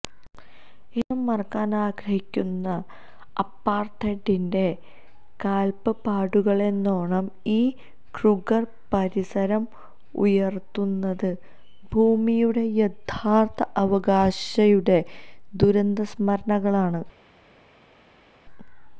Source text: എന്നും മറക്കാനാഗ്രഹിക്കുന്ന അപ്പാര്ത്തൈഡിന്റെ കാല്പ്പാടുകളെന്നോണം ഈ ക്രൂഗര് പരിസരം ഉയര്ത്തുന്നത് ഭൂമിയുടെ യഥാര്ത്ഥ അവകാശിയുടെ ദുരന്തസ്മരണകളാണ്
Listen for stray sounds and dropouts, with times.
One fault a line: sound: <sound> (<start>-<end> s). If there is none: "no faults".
no faults